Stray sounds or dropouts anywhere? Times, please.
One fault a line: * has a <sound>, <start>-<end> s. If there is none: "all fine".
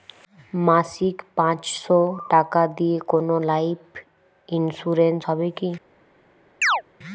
* has a chirp, 6.6-6.8 s